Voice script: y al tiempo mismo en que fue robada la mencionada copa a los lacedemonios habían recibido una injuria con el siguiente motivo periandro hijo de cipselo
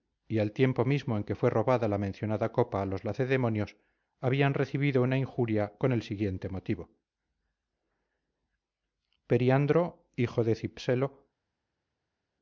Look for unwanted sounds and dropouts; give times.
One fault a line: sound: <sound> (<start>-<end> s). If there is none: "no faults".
no faults